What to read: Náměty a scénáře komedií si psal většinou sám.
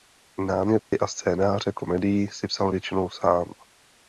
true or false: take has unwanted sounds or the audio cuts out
true